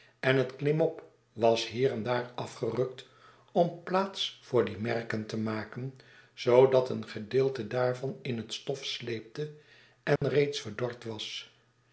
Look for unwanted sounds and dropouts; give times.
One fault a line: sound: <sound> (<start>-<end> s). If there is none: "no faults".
sound: dropout (10.2-10.2 s)